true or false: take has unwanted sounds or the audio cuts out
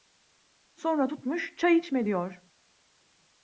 false